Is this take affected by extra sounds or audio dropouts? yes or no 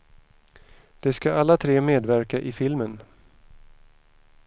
no